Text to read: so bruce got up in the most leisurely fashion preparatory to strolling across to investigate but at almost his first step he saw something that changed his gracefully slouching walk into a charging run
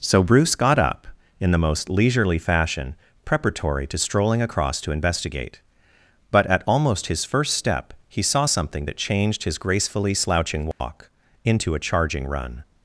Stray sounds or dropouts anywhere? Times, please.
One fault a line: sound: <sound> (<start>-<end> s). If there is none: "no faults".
sound: dropout (10.7-10.8 s)